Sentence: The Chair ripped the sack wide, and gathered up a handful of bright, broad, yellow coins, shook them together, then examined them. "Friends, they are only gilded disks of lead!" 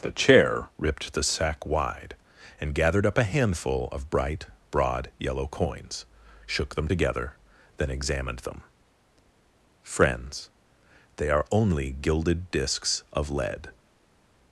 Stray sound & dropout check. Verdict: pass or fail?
pass